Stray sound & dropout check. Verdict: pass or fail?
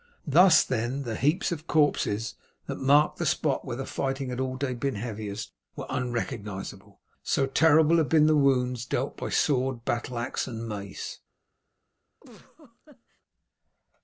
fail